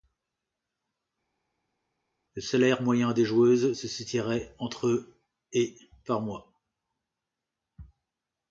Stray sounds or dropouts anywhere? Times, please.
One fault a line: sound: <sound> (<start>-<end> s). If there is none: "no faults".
no faults